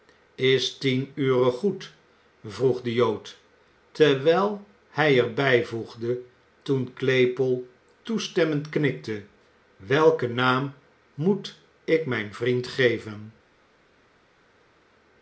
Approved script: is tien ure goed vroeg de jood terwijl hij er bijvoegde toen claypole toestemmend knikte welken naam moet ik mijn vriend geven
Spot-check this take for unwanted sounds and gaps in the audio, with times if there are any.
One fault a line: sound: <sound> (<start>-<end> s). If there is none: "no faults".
no faults